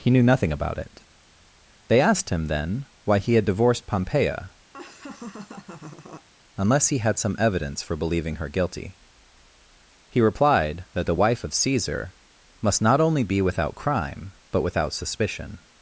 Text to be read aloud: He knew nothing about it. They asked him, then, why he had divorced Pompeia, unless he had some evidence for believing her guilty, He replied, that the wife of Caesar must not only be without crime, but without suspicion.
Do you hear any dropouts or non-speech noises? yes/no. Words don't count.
yes